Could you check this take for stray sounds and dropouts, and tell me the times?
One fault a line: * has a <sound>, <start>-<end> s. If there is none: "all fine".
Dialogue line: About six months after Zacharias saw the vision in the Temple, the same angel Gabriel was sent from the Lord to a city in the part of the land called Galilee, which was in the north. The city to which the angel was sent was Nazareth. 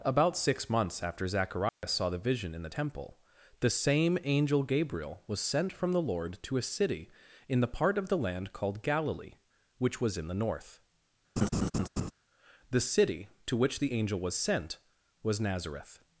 * has a dropout, 1.7-1.8 s
* has a laugh, 11.4-12.1 s